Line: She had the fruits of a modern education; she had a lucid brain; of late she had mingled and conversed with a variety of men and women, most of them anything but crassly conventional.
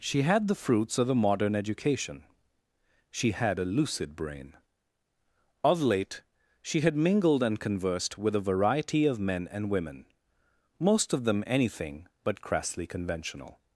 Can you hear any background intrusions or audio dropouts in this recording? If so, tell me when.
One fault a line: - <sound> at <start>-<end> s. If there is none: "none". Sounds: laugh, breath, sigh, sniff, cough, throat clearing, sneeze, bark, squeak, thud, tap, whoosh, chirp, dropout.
none